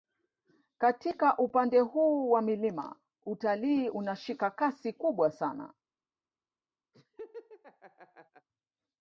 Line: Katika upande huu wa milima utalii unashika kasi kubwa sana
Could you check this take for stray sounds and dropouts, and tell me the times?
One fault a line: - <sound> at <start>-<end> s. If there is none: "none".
- laugh at 6.9-8.5 s